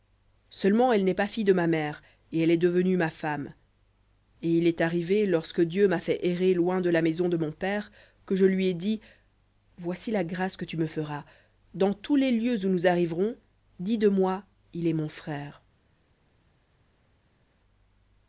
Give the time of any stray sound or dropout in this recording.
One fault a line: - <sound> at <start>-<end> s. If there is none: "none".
none